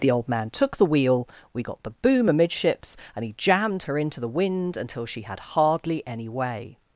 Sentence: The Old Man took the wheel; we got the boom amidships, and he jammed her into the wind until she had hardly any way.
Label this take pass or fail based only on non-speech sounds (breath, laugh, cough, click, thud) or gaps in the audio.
pass